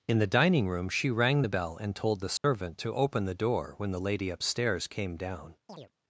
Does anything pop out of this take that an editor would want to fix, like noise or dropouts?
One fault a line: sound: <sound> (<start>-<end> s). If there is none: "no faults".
sound: dropout (2.4-2.4 s)
sound: chirp (5.7-5.9 s)